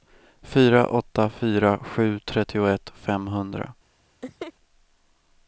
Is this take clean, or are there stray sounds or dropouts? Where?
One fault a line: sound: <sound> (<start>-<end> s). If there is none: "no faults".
sound: laugh (4.2-4.5 s)